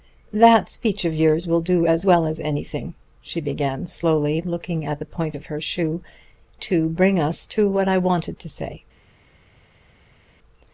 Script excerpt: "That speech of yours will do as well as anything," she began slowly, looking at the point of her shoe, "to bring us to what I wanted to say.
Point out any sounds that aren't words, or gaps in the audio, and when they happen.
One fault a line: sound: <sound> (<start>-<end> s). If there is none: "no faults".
no faults